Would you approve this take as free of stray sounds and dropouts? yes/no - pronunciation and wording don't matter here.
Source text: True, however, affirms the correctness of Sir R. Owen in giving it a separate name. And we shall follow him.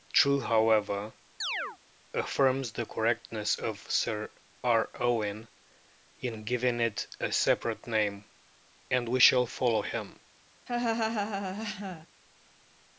no